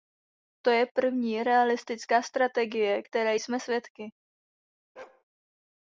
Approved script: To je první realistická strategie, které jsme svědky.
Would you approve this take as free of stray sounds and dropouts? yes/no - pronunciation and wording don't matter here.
no